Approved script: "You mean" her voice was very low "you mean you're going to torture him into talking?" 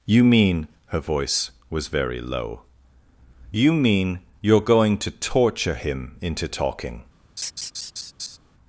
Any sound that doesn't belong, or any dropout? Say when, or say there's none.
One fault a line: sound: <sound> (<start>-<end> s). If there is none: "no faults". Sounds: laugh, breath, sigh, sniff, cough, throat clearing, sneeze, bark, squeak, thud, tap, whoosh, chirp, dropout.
sound: laugh (7.4-8.4 s)